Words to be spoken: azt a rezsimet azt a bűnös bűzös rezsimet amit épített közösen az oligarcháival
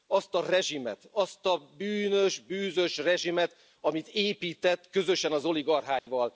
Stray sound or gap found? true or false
true